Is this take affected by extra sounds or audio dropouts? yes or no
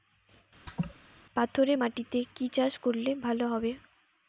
yes